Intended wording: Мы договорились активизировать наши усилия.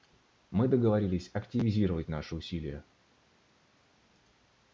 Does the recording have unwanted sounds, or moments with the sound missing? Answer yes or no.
no